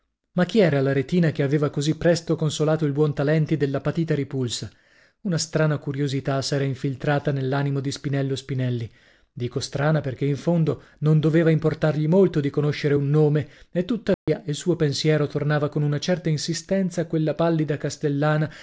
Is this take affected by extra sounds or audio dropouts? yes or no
yes